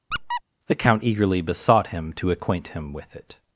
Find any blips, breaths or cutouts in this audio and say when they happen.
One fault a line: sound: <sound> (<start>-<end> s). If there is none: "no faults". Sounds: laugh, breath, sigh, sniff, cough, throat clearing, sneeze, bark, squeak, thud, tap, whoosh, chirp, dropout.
sound: squeak (0.1-0.4 s)